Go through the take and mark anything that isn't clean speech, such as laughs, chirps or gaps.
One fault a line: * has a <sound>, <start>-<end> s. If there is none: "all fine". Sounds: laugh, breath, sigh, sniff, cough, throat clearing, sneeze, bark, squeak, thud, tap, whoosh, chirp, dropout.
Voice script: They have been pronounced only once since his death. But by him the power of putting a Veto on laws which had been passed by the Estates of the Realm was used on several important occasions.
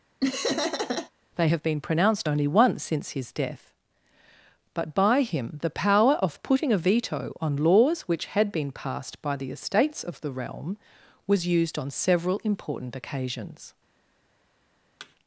* has a laugh, 0.2-1.1 s
* has a thud, 15.0-15.2 s